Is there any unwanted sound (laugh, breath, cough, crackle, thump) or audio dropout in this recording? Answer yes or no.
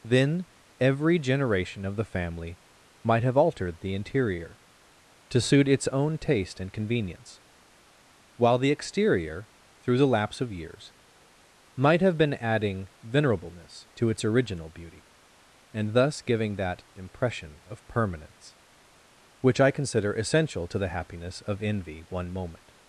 no